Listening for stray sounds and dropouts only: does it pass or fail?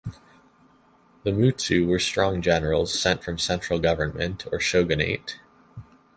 pass